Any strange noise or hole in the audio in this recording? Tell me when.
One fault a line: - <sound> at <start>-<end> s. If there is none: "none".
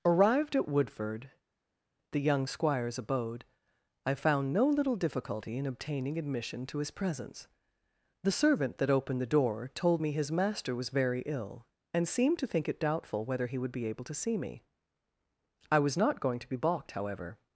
none